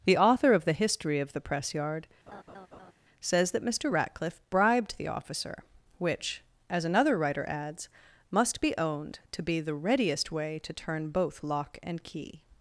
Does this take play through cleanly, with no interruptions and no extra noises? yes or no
no